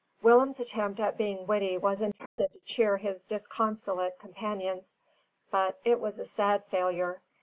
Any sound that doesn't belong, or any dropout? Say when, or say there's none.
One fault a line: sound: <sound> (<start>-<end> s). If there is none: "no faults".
sound: dropout (2.3-2.4 s)